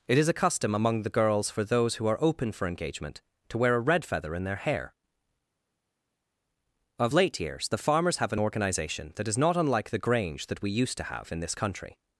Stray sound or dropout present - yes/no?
no